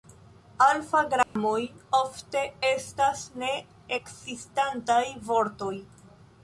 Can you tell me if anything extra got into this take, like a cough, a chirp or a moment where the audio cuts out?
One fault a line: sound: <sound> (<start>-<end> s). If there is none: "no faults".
sound: dropout (1.2-1.4 s)